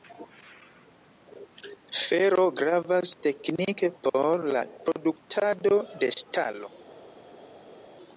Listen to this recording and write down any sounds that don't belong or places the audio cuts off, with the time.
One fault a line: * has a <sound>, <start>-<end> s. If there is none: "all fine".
all fine